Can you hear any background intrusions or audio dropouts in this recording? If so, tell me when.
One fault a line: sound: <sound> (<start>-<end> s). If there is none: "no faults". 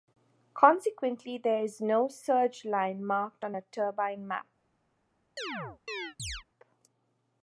sound: chirp (5.4-6.4 s)